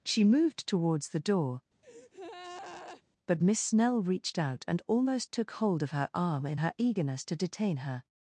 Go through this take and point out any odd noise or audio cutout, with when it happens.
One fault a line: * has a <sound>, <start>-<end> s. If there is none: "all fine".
* has a breath, 1.8-3.0 s